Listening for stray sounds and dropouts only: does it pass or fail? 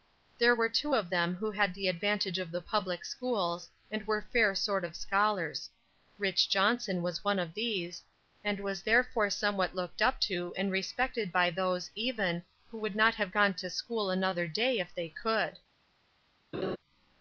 fail